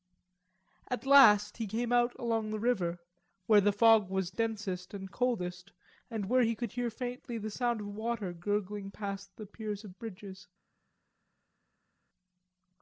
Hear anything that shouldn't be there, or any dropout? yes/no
no